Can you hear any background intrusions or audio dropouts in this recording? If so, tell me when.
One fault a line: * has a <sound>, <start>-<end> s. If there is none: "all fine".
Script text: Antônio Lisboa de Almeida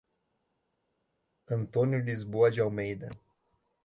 all fine